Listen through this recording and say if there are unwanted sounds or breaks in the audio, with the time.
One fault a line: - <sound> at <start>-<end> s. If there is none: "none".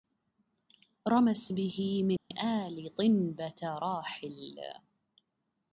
- dropout at 2.2-2.3 s